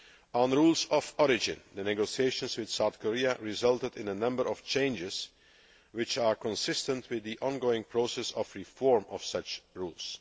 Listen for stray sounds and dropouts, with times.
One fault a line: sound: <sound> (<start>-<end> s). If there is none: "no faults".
no faults